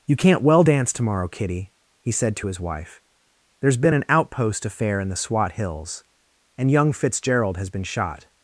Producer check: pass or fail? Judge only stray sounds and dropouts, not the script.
pass